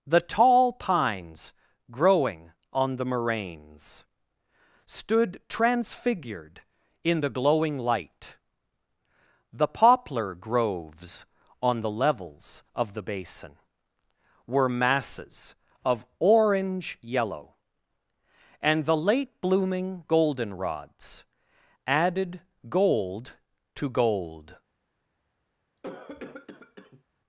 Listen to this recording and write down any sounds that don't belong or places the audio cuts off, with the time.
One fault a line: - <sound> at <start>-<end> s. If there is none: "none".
- cough at 25.8-27.0 s